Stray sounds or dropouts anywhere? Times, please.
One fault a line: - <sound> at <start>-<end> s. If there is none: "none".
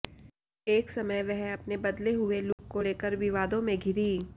- dropout at 2.5-2.6 s